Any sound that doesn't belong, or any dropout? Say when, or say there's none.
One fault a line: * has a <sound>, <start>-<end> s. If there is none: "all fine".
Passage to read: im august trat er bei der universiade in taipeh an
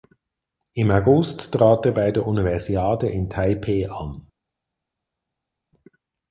all fine